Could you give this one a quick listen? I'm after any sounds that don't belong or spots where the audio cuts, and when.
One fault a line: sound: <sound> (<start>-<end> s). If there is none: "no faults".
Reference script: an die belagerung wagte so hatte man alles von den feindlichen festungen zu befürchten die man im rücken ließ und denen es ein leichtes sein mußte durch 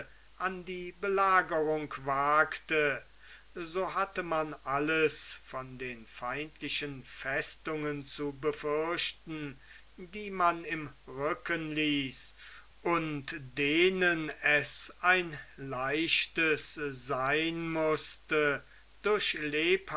no faults